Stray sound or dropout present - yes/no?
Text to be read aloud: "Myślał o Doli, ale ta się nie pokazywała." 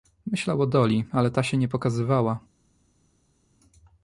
no